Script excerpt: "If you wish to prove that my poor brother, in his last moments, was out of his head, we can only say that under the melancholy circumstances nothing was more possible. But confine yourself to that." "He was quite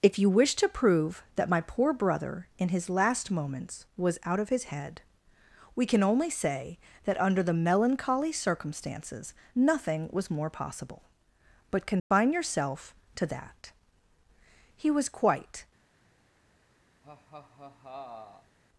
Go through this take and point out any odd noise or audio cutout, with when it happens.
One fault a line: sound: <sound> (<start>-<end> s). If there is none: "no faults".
sound: dropout (12.0-12.1 s)
sound: laugh (17.0-18.6 s)